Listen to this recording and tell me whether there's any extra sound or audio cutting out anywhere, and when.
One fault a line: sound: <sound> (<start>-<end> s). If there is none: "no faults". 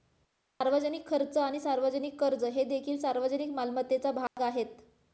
sound: dropout (4.3-4.4 s)